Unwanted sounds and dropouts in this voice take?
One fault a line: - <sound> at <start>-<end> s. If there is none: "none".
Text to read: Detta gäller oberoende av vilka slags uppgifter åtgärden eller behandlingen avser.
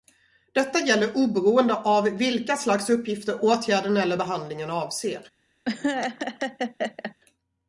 - laugh at 5.6-7.1 s